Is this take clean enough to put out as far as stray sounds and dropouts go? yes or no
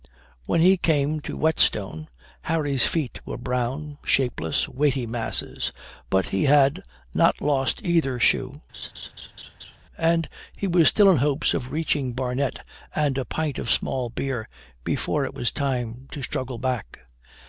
no